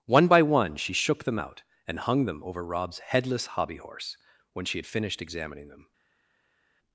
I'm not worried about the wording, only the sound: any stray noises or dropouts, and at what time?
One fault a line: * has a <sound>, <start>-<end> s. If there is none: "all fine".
all fine